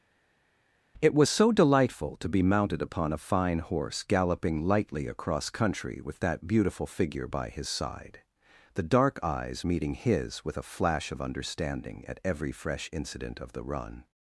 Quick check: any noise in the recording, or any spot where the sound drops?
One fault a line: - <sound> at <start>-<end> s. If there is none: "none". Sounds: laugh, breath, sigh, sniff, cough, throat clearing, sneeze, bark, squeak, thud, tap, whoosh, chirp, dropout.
none